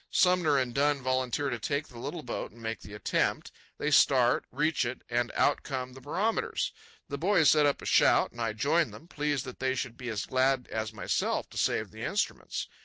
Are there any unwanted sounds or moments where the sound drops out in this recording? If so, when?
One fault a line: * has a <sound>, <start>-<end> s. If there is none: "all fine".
all fine